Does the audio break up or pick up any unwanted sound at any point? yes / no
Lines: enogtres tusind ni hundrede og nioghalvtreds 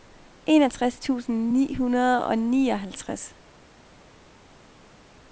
no